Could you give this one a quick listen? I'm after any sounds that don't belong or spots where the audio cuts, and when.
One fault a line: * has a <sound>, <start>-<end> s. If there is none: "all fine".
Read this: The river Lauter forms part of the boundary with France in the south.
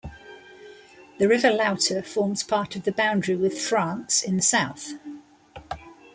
all fine